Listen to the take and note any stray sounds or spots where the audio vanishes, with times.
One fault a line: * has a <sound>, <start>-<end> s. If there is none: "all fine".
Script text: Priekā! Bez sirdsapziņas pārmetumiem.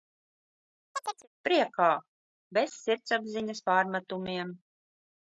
* has a chirp, 0.9-1.3 s